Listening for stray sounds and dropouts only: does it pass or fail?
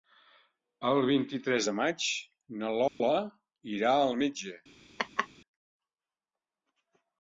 fail